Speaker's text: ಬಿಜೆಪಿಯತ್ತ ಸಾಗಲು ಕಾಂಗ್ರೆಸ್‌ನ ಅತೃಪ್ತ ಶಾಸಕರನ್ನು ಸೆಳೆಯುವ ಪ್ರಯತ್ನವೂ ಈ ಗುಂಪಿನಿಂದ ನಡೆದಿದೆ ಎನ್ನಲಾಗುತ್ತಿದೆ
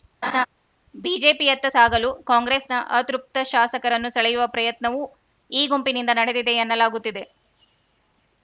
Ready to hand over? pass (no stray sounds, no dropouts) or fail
fail